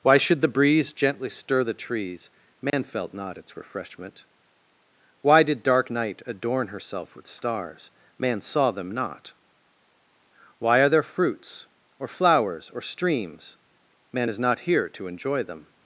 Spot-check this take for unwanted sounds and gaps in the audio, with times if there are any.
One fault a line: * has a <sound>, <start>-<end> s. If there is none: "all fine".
* has a dropout, 2.7-2.7 s